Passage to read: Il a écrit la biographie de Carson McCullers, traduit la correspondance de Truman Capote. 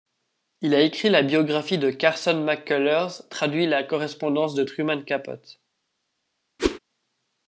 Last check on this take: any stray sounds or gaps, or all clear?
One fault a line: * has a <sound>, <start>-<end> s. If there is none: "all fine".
* has a whoosh, 6.6-6.8 s